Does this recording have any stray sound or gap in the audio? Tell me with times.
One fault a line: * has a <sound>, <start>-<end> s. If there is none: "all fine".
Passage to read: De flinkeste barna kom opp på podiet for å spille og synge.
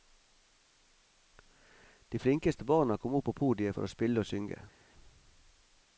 all fine